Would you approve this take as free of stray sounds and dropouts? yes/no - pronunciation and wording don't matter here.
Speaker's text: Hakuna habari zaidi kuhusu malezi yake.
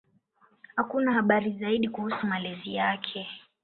yes